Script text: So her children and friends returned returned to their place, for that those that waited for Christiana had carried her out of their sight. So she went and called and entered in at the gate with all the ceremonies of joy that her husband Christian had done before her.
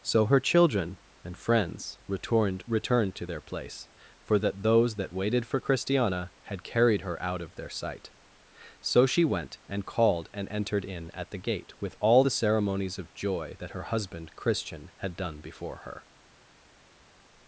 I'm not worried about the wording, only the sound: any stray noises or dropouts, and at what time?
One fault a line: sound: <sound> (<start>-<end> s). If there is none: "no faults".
no faults